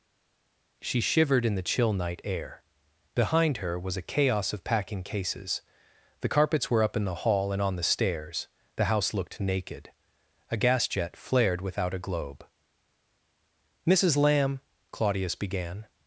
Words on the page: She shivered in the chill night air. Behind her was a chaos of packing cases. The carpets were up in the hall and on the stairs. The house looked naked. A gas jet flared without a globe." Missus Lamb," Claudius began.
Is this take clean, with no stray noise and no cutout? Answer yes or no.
yes